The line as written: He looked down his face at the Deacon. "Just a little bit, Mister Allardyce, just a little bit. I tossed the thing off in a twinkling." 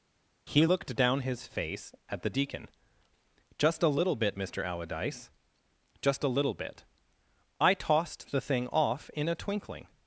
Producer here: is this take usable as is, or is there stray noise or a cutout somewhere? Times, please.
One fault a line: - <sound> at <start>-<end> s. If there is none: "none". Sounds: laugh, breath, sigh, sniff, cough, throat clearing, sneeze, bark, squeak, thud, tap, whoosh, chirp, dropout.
none